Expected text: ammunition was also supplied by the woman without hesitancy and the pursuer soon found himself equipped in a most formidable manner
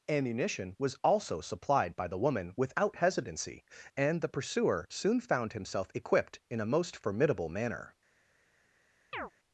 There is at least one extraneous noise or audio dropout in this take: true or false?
true